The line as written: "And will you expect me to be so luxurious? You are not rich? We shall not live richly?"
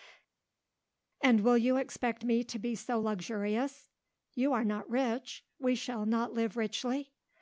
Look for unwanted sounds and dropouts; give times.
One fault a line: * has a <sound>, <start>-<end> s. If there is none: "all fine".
all fine